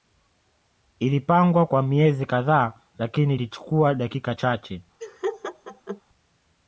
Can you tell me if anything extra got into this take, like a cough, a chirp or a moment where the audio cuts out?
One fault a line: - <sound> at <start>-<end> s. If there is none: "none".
- laugh at 5.0-6.0 s